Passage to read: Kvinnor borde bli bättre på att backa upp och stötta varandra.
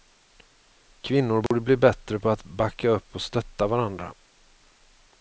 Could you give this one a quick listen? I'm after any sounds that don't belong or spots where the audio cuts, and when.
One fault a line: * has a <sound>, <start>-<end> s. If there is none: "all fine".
* has a dropout, 1.5-1.5 s